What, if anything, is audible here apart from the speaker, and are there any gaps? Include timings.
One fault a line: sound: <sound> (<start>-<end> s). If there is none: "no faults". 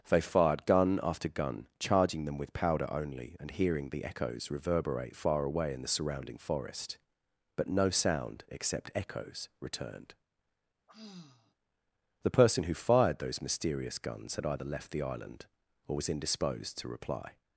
sound: sigh (10.9-11.5 s)